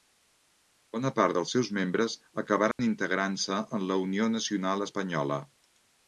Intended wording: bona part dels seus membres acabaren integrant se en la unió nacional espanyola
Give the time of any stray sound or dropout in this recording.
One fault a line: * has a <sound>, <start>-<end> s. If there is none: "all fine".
* has a dropout, 2.7-2.8 s